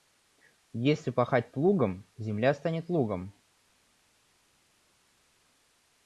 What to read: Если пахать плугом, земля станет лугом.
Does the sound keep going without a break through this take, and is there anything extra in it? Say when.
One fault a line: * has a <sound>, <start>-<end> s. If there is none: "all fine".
all fine